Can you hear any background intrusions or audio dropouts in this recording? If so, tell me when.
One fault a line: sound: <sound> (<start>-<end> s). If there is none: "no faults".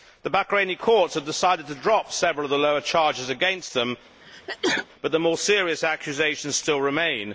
sound: sneeze (4.2-4.9 s)